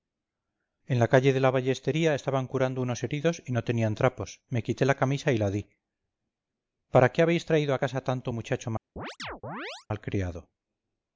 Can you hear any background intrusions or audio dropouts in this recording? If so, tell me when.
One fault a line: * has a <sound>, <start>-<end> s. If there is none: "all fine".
* has a chirp, 9.0-9.9 s